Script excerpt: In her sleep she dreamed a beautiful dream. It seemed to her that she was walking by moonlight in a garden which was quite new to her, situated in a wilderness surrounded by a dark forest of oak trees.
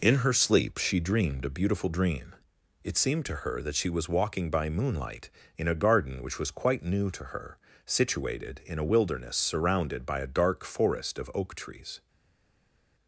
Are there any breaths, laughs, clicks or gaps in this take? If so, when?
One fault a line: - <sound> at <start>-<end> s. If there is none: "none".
none